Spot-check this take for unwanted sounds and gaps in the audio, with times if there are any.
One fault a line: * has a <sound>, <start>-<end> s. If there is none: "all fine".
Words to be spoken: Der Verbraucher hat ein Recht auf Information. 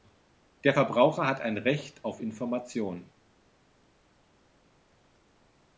all fine